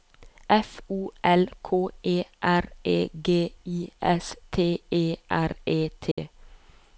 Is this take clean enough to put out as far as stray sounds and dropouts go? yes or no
no